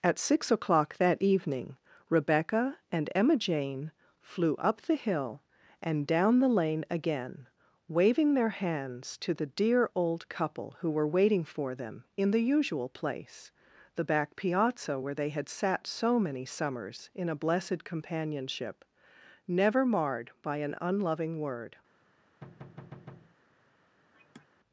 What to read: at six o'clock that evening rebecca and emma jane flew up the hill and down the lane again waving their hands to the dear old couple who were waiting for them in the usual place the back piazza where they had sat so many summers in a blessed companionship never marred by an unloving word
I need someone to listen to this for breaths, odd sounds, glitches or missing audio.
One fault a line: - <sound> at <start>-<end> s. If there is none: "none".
- thud at 22.4-23.4 s
- sigh at 24.1-24.5 s